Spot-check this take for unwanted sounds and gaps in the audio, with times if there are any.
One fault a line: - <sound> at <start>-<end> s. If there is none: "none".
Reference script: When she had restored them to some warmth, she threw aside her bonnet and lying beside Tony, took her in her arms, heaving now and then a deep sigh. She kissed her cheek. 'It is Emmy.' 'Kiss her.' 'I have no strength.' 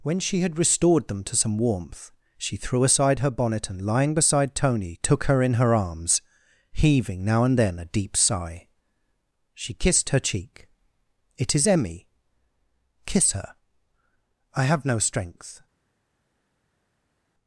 none